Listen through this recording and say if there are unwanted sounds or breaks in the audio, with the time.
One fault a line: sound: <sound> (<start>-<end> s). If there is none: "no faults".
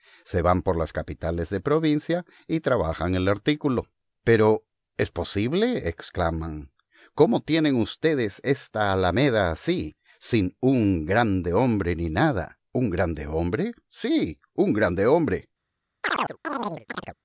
sound: chirp (16.0-17.2 s)